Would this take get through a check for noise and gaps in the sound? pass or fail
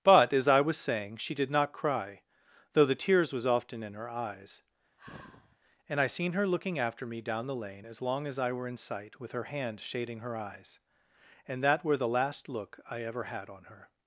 fail